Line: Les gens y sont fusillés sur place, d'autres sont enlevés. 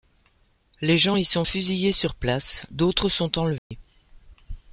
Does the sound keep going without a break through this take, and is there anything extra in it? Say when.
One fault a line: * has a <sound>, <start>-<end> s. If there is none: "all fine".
* has a dropout, 3.6-3.7 s